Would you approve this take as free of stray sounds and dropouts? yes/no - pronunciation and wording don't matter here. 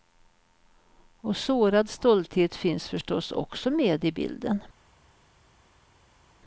yes